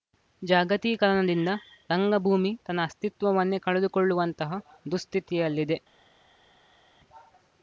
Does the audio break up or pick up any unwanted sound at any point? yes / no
no